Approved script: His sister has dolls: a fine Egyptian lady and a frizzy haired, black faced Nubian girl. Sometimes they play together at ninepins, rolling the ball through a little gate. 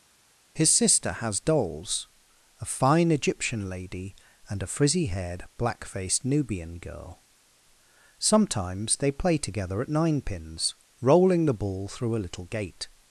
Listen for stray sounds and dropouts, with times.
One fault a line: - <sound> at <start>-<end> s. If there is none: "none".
none